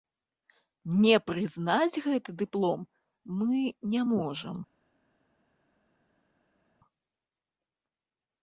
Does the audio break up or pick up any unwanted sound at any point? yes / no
no